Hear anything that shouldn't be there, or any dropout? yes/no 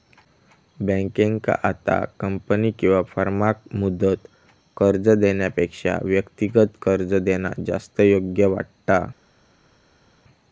no